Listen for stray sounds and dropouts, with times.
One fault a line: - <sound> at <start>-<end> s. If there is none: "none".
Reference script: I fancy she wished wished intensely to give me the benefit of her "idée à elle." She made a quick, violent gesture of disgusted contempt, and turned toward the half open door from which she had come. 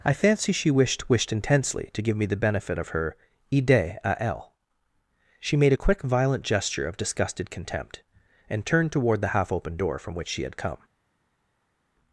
none